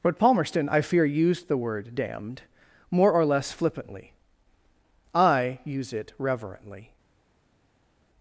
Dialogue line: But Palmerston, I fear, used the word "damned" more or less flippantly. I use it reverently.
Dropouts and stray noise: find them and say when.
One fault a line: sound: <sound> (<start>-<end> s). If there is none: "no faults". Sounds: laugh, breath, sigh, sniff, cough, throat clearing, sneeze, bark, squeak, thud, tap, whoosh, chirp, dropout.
no faults